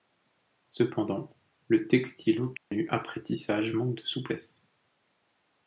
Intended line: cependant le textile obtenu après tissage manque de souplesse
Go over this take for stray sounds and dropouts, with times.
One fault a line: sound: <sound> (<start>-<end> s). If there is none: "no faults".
sound: dropout (2.6-2.7 s)